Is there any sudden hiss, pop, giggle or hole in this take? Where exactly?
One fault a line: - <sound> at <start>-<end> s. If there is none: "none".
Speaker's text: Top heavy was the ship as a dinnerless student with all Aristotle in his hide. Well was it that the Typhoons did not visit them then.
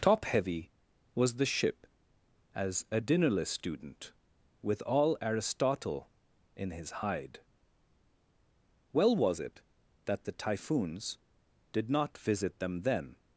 none